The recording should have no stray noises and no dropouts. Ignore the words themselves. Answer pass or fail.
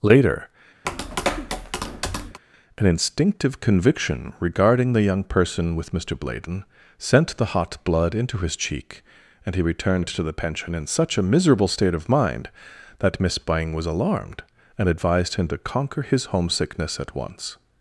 fail